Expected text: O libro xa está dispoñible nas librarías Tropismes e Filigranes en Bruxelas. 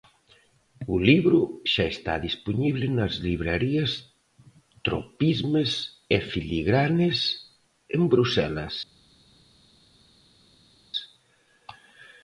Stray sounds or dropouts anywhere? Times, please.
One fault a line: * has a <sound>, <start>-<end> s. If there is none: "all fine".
all fine